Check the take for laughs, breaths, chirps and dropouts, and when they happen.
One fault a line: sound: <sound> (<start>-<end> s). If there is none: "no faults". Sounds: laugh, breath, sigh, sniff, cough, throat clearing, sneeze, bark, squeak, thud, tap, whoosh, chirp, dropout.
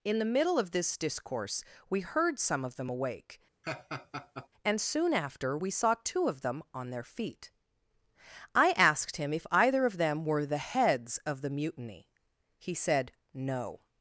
sound: laugh (3.6-4.5 s)